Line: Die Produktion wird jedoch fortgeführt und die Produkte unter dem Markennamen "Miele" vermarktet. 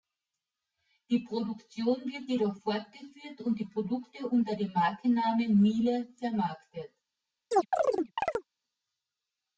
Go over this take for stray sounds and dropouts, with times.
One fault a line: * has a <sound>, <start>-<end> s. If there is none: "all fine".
* has a chirp, 7.5-8.5 s